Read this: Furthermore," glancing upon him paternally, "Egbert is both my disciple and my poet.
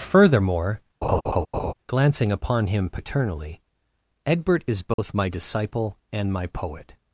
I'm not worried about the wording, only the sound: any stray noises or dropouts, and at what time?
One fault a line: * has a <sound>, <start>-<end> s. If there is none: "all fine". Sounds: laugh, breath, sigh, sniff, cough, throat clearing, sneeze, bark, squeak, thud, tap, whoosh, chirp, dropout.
* has a laugh, 1.0-1.7 s
* has a dropout, 4.9-5.0 s